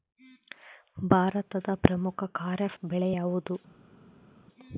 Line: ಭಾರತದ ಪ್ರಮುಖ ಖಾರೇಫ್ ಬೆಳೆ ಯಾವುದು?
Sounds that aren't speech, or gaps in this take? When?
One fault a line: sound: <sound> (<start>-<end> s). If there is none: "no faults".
no faults